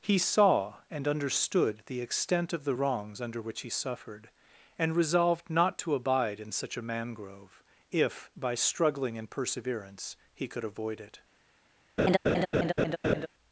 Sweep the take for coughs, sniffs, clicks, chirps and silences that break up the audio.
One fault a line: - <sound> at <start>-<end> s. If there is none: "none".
- laugh at 12.0-13.3 s